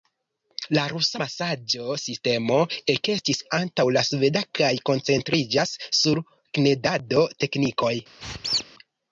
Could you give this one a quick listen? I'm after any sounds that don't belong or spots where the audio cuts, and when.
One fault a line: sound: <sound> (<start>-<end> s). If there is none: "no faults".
sound: squeak (8.2-8.6 s)